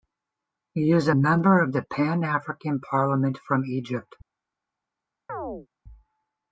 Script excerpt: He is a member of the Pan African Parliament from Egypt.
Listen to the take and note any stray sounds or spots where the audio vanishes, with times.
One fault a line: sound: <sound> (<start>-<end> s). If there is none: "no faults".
sound: chirp (5.3-5.7 s)